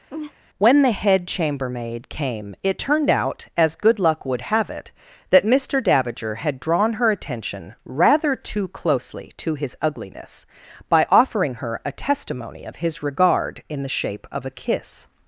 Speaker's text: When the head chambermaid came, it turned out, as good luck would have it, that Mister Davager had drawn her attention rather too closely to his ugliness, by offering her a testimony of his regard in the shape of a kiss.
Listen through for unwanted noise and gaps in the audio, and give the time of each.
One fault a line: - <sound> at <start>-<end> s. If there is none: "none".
- laugh at 0.1-0.3 s